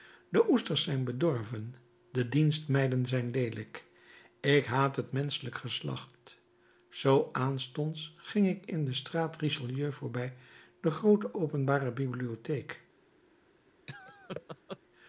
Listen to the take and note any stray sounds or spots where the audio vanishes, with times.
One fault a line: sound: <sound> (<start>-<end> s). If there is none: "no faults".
sound: laugh (13.9-14.8 s)